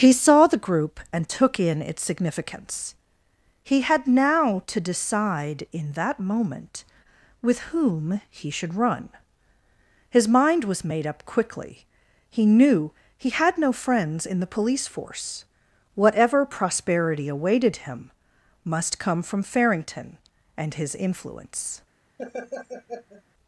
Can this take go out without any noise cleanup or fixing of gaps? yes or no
no